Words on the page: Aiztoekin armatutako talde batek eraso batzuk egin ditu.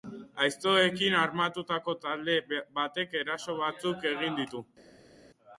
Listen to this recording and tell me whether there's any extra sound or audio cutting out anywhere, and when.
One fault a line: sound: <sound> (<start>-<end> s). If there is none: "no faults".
no faults